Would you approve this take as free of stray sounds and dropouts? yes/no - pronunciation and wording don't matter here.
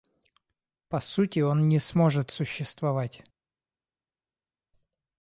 yes